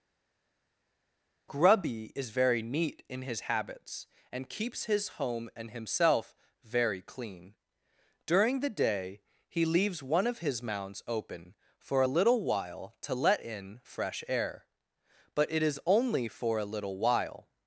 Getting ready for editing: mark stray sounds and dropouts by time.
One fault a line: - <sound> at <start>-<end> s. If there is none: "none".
none